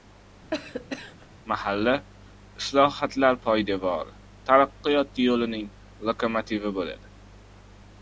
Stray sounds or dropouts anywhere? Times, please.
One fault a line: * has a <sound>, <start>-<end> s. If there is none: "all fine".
* has a cough, 0.5-1.3 s